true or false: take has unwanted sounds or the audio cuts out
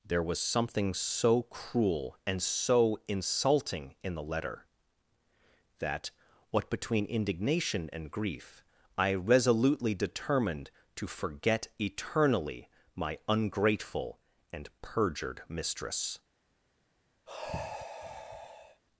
true